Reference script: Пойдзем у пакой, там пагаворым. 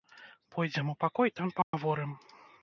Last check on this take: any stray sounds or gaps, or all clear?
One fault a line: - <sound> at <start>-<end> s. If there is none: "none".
- dropout at 1.6-1.7 s